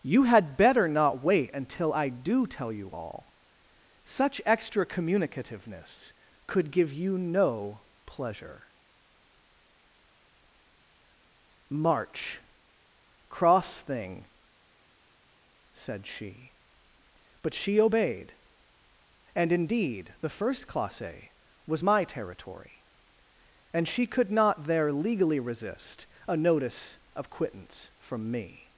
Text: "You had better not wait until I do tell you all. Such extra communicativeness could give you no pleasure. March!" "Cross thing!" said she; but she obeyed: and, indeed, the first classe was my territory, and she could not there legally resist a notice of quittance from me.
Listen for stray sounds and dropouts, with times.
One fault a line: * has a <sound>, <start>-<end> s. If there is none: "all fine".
all fine